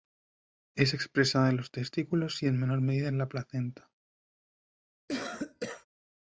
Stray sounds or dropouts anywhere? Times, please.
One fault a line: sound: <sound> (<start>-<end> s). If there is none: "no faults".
sound: cough (5.1-5.9 s)